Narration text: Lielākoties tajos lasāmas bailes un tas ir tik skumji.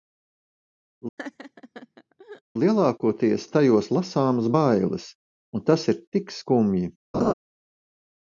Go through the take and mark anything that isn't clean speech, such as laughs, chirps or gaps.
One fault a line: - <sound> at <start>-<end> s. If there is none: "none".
- laugh at 1.2-2.4 s
- laugh at 7.1-7.3 s